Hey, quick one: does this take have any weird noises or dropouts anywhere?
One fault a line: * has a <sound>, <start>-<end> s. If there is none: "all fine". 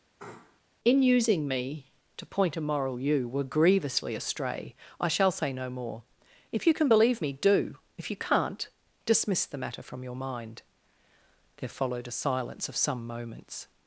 * has a sneeze, 0.2-0.6 s